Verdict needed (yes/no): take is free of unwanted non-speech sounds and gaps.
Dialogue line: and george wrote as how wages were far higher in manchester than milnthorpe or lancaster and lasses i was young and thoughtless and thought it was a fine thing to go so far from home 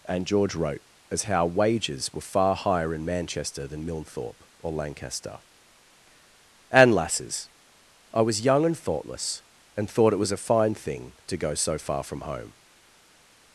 yes